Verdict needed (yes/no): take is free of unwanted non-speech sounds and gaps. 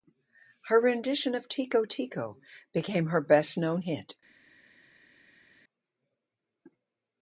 yes